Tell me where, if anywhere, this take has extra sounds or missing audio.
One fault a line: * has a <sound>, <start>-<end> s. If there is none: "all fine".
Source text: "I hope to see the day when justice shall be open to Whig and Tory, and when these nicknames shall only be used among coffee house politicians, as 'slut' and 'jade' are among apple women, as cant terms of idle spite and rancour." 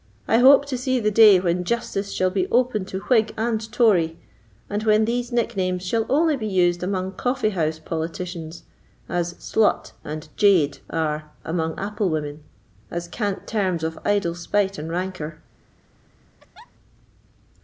* has a laugh, 16.4-16.7 s